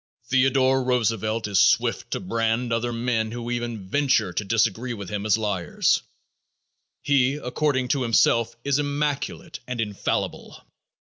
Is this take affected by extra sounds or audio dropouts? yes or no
no